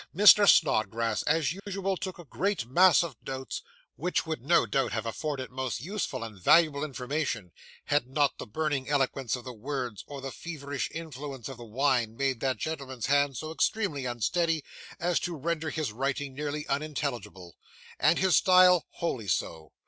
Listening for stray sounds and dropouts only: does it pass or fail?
fail